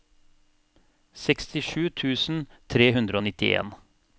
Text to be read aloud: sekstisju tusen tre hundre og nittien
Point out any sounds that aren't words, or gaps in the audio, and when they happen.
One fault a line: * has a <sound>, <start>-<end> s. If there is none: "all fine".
all fine